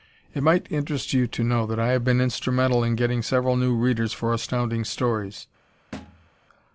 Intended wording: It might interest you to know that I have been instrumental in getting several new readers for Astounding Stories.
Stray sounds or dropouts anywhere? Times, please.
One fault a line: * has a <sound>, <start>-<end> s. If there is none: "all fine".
* has a thud, 5.9-6.3 s